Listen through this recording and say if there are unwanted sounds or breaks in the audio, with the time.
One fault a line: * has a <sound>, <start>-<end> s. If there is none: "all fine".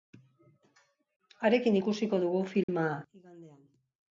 * has a dropout, 2.6-2.7 s